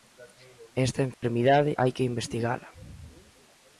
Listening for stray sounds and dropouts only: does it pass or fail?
fail